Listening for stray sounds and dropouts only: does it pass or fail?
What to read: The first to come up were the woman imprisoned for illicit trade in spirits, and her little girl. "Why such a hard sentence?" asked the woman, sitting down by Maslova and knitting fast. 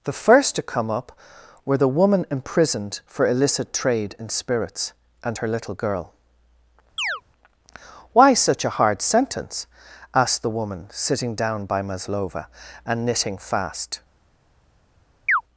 fail